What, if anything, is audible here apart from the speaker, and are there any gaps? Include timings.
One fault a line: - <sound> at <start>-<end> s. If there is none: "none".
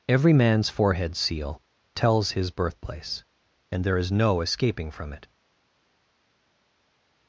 none